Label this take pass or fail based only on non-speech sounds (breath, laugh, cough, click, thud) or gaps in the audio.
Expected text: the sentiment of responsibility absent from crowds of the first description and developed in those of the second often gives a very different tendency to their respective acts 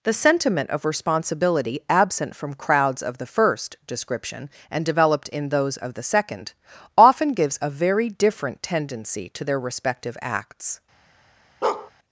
fail